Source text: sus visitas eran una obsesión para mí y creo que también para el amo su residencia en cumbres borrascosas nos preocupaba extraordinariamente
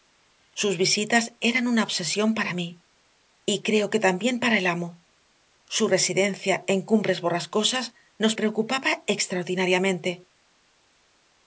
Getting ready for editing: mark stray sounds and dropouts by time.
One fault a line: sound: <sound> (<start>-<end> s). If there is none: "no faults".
no faults